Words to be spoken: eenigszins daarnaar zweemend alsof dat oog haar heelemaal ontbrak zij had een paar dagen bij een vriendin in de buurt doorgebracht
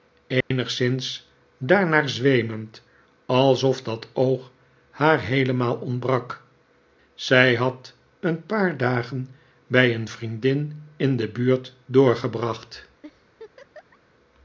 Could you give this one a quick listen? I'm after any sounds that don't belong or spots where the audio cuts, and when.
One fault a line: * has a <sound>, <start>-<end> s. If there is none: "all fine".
* has a dropout, 0.4-0.5 s
* has a laugh, 13.0-14.0 s